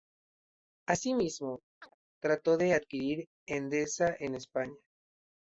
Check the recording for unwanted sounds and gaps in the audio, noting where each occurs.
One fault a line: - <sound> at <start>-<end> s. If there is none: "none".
- chirp at 1.8-2.0 s